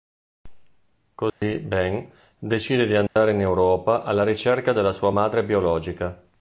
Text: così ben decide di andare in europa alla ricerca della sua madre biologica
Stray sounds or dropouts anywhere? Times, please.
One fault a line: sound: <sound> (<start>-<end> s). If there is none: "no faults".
sound: dropout (1.3-1.4 s)
sound: dropout (3.1-3.2 s)